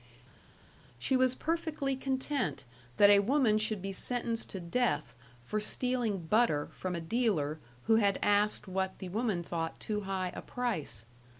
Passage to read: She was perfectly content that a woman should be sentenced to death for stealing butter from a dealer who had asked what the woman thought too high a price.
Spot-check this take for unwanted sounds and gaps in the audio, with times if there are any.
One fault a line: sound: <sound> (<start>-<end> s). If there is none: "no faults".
no faults